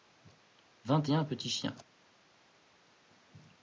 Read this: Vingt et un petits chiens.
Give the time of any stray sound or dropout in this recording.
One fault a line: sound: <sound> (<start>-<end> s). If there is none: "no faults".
no faults